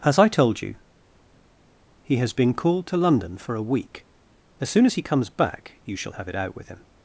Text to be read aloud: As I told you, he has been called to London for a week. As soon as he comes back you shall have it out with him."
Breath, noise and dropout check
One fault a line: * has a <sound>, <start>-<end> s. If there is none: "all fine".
all fine